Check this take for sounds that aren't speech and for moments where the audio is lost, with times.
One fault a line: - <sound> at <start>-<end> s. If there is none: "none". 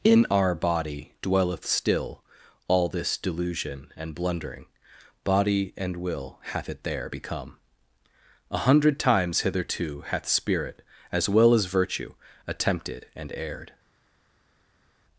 none